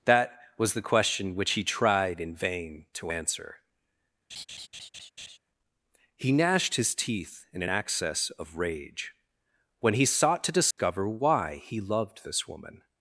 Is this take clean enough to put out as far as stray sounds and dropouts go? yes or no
no